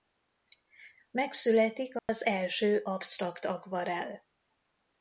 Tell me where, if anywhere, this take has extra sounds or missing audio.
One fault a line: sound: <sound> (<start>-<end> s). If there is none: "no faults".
sound: dropout (2.0-2.1 s)